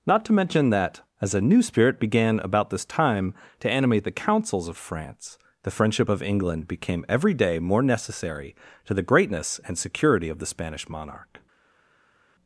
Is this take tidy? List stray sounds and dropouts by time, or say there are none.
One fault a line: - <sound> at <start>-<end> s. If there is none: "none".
none